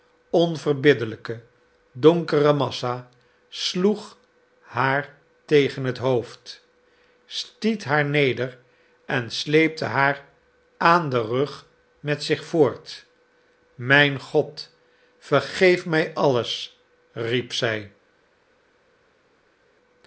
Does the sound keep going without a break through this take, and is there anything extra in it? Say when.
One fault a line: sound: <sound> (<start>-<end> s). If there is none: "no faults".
no faults